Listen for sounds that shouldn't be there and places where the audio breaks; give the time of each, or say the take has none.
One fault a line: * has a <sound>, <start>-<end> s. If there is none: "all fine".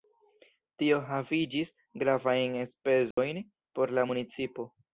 * has a dropout, 3.1-3.2 s